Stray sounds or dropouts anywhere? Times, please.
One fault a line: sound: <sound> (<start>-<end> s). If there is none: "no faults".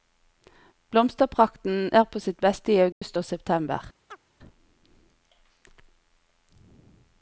sound: dropout (2.9-3.0 s)
sound: chirp (4.1-4.2 s)